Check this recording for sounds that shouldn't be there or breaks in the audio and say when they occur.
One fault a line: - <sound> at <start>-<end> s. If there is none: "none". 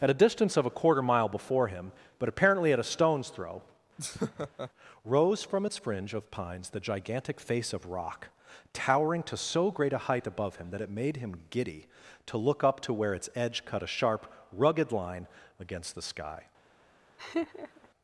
- laugh at 4.0-4.7 s
- laugh at 17.2-17.9 s